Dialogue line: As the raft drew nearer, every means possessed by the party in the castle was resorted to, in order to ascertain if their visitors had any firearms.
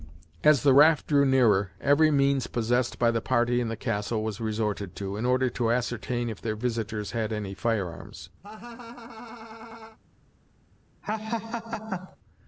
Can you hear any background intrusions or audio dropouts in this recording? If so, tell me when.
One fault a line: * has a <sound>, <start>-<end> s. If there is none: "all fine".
* has a laugh, 8.4-10.0 s
* has a laugh, 11.0-12.2 s